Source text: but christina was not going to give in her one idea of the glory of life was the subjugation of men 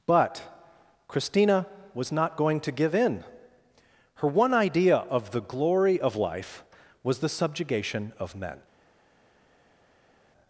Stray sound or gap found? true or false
false